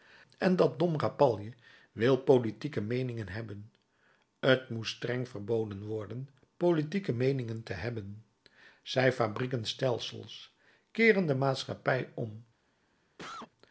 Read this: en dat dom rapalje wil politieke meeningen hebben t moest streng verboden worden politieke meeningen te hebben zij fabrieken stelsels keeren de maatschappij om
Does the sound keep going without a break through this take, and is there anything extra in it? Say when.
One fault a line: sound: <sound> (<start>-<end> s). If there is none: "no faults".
sound: cough (13.2-13.5 s)